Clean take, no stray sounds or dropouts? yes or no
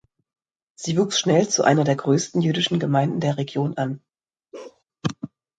no